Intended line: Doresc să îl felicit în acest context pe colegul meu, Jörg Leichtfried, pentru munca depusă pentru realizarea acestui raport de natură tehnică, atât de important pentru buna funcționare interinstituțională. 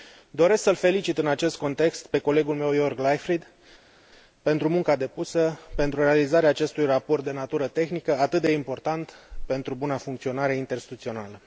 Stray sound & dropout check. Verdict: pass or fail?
pass